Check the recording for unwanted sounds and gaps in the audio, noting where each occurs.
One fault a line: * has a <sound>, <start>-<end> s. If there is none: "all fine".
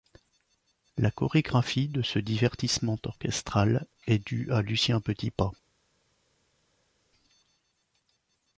all fine